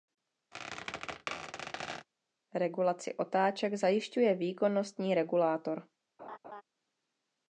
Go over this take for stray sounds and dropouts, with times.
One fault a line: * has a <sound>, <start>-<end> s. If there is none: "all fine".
* has a squeak, 0.5-2.1 s
* has a laugh, 6.2-6.6 s